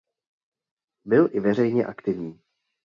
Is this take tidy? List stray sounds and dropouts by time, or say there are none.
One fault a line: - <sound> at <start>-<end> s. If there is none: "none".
none